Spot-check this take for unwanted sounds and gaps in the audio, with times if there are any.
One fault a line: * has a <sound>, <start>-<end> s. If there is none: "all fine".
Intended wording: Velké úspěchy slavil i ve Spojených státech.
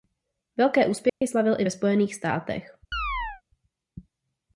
* has a dropout, 1.1-1.2 s
* has a chirp, 2.9-3.4 s